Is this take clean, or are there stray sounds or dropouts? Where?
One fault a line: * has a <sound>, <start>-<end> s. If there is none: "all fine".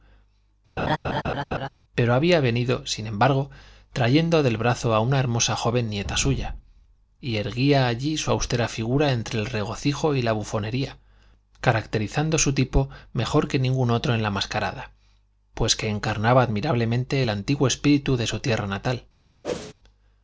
* has a laugh, 0.8-1.7 s
* has a whoosh, 19.4-19.7 s